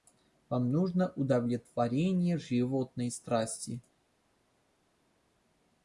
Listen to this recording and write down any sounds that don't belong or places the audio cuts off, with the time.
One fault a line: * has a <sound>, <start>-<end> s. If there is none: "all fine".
all fine